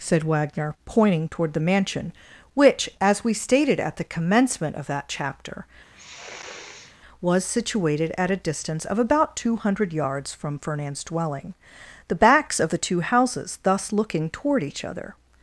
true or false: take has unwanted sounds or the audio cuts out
true